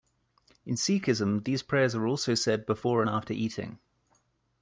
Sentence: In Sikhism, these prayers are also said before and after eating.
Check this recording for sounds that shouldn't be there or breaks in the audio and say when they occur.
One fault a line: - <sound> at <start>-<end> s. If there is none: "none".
none